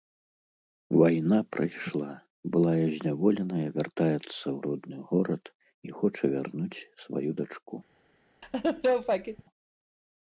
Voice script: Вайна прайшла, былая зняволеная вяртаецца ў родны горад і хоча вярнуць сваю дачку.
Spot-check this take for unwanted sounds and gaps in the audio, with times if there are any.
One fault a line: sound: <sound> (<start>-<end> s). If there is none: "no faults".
sound: laugh (8.4-9.4 s)